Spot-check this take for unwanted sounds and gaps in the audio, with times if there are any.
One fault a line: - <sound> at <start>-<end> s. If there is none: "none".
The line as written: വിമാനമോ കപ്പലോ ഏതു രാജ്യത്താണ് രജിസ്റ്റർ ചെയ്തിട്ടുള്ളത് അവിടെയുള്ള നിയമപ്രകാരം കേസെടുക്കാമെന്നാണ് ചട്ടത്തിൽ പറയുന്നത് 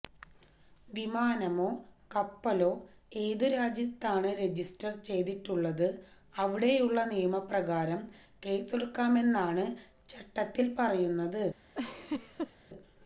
- laugh at 11.8-12.6 s